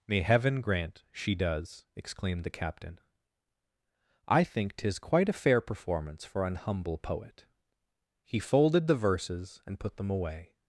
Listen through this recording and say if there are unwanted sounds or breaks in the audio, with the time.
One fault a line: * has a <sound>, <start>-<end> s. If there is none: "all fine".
all fine